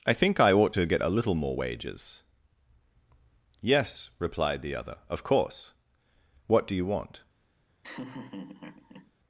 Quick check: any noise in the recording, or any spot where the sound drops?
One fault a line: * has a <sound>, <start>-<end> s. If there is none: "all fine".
* has a laugh, 7.8-9.1 s